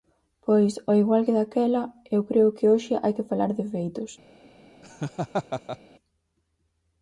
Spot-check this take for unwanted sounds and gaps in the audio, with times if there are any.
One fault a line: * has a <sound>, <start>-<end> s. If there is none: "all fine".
* has a laugh, 4.8-5.8 s